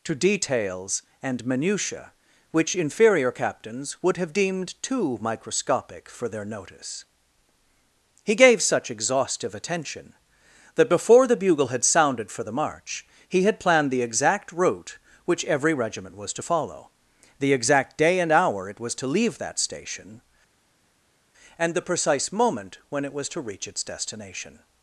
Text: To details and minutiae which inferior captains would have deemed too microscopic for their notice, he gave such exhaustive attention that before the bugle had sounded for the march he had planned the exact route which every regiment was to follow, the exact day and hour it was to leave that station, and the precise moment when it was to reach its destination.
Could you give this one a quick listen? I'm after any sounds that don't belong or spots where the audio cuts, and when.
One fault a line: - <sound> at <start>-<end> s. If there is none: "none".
none